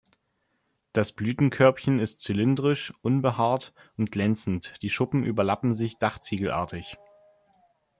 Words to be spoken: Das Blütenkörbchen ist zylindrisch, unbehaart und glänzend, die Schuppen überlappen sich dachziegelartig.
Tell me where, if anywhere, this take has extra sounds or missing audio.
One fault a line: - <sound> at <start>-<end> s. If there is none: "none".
none